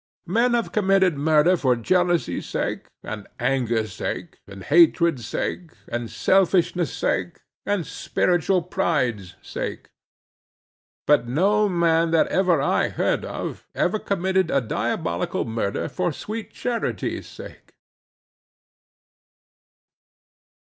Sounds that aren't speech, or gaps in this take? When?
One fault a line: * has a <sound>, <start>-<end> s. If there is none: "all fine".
all fine